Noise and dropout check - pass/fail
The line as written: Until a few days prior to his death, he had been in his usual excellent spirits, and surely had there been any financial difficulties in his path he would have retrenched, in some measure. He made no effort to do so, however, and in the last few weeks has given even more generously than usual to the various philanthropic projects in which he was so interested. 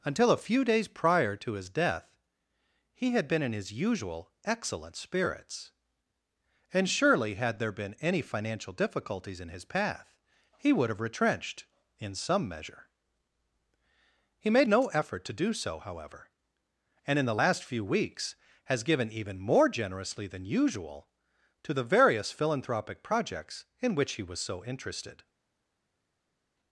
pass